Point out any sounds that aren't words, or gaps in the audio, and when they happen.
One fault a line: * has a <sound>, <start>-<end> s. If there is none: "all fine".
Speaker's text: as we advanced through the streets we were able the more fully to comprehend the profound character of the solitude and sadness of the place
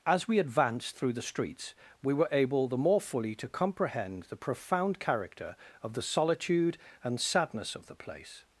all fine